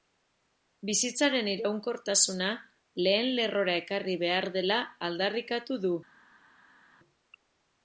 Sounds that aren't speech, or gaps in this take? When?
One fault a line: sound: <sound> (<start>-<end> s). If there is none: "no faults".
no faults